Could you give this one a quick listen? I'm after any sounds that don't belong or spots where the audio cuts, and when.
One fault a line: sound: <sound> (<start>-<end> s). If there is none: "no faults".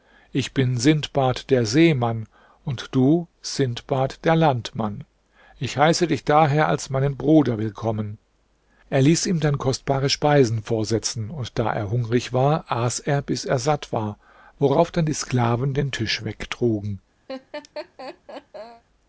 sound: laugh (17.3-18.8 s)